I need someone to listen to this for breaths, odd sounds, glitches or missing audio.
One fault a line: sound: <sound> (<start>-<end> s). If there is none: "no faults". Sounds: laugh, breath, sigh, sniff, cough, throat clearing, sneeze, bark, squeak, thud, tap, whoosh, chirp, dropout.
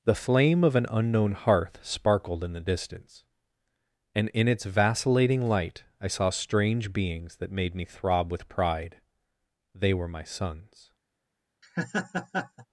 sound: laugh (11.6-12.7 s)